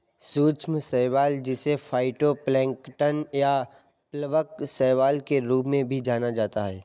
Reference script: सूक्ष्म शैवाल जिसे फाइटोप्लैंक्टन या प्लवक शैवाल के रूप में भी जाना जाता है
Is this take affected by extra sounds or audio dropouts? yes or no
no